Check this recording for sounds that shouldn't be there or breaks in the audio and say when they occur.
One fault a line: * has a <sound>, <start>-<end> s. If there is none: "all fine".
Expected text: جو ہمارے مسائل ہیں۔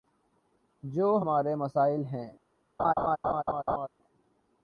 * has a laugh, 2.8-3.9 s